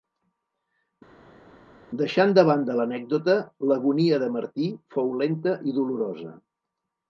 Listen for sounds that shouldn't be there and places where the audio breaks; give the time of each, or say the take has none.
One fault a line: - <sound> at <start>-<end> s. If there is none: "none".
none